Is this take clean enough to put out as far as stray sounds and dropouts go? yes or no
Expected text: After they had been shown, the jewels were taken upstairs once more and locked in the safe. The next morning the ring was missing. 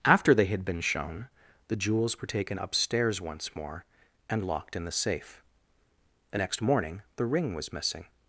yes